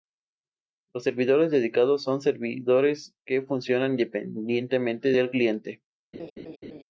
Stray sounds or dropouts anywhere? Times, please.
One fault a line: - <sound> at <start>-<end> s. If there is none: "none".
- laugh at 6.1-6.8 s